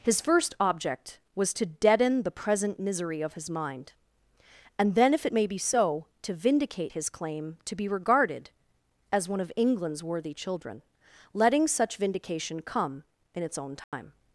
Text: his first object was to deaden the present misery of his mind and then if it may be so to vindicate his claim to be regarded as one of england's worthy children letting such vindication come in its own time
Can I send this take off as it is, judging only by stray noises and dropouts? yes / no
no